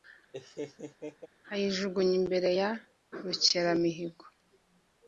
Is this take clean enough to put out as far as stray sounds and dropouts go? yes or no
no